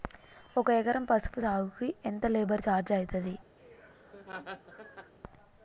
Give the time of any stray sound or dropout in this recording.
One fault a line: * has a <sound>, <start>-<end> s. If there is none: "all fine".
* has a laugh, 3.6-5.1 s